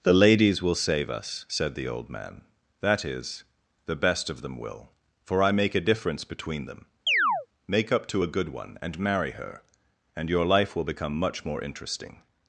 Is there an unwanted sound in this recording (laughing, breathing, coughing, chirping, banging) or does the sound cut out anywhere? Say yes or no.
yes